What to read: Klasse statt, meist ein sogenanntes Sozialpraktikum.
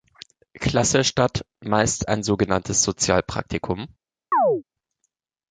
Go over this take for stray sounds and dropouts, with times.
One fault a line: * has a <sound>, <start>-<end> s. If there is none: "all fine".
* has a chirp, 4.3-4.6 s